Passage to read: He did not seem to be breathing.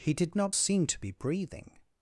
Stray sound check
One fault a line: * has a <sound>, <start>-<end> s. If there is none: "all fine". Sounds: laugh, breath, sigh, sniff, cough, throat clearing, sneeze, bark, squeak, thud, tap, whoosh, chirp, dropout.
all fine